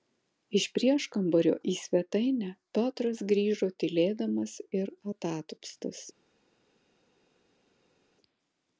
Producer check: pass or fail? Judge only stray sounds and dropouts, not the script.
pass